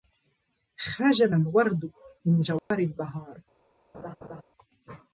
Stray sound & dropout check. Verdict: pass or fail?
fail